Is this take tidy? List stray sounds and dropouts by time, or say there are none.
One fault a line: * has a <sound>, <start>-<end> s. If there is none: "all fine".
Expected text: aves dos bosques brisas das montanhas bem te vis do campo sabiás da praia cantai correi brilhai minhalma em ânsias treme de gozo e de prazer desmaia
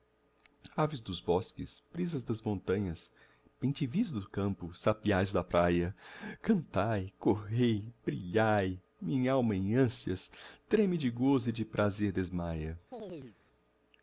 * has a chirp, 12.9-13.4 s